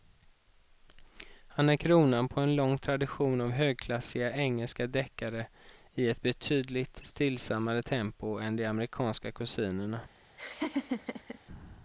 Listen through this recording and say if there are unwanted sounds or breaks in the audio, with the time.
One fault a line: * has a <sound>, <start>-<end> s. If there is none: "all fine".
* has a laugh, 10.4-11.4 s